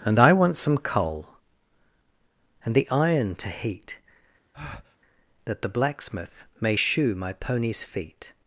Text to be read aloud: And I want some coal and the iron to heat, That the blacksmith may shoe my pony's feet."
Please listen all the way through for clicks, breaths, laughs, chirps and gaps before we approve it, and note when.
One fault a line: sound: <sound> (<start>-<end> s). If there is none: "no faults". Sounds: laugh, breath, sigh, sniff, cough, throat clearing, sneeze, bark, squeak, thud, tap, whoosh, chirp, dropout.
sound: breath (4.5-5.0 s)